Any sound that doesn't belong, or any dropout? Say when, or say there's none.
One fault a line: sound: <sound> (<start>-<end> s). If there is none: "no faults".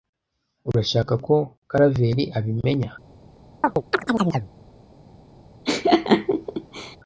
sound: chirp (3.6-4.5 s)
sound: laugh (5.7-7.0 s)